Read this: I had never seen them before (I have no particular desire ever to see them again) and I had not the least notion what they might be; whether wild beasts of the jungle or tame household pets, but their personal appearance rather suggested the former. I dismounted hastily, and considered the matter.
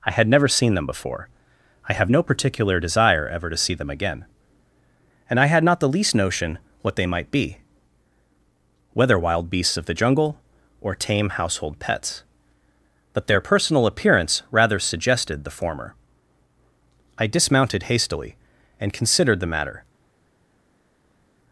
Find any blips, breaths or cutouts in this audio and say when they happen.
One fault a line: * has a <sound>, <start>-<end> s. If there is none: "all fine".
all fine